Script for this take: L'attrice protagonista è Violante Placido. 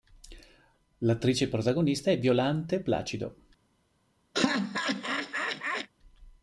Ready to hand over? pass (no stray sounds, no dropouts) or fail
fail